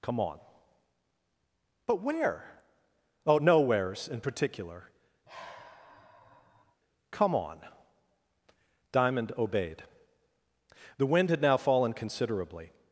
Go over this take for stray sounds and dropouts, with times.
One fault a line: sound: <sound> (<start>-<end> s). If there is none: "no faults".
sound: sigh (5.2-6.8 s)